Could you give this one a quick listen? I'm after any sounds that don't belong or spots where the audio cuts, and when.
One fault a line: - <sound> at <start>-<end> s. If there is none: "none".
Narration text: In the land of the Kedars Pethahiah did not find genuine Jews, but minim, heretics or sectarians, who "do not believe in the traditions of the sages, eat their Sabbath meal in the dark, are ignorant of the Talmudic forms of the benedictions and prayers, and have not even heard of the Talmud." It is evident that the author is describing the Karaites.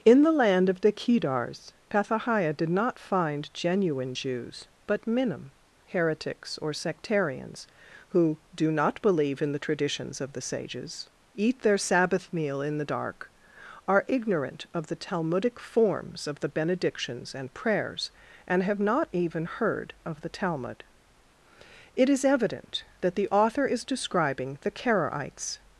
none